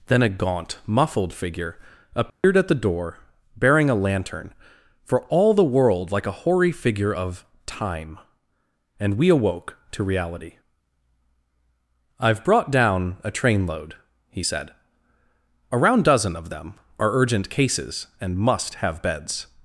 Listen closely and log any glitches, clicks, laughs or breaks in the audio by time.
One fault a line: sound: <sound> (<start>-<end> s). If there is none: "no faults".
sound: dropout (2.3-2.4 s)